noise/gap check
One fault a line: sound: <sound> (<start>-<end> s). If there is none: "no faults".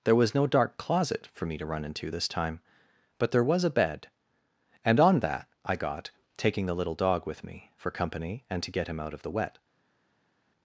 no faults